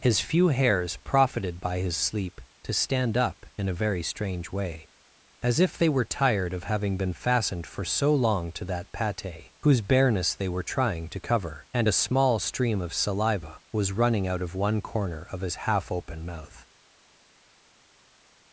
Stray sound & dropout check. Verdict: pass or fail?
pass